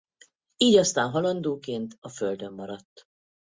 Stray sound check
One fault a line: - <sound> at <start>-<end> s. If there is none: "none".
none